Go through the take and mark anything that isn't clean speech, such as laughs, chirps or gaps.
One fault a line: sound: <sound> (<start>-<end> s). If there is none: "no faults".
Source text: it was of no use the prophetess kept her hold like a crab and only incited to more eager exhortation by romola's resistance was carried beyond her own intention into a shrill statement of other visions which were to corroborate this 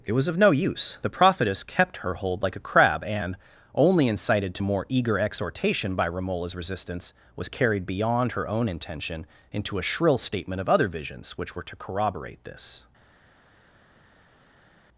no faults